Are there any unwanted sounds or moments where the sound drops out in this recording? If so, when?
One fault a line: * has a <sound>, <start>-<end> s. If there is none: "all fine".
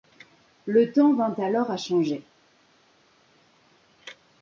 all fine